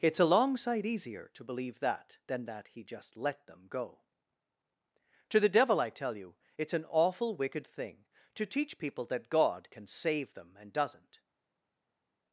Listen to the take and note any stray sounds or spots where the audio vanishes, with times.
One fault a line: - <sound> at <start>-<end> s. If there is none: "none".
none